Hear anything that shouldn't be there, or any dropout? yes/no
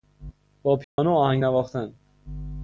yes